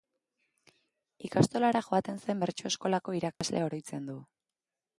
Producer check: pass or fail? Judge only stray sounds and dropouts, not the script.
fail